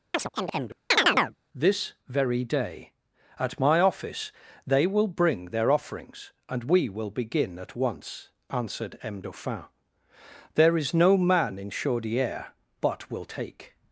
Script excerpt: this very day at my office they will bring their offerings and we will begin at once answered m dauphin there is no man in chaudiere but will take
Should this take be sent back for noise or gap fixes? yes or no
yes